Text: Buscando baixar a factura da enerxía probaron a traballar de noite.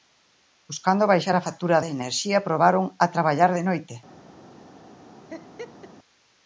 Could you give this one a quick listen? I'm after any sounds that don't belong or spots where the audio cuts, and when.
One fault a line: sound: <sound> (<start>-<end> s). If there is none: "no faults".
sound: laugh (5.3-5.9 s)